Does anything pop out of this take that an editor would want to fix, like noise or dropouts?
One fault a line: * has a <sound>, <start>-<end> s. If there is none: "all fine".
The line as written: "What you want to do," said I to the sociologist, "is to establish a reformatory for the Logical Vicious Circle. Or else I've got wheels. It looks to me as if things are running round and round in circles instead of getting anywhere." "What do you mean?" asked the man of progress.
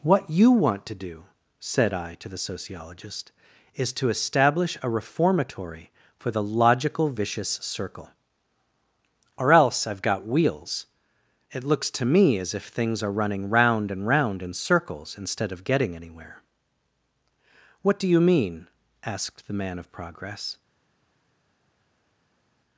all fine